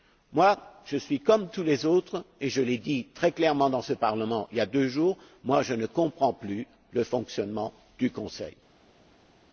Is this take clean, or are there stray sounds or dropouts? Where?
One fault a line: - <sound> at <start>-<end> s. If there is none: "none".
none